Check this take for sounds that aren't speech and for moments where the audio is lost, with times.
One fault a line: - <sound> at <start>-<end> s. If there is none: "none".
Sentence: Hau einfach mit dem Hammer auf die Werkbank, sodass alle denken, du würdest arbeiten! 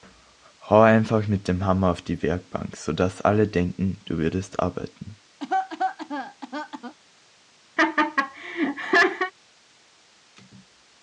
- cough at 5.4-7.0 s
- laugh at 7.8-9.3 s